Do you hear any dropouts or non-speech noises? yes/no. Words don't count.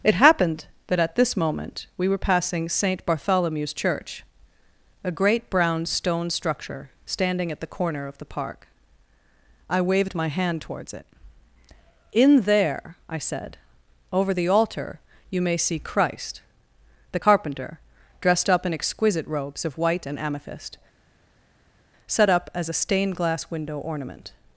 no